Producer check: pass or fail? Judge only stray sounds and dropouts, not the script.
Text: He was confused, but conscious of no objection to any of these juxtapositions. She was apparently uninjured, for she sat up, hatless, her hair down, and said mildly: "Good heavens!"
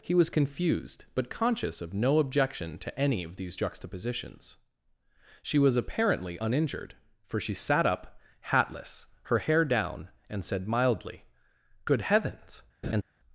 fail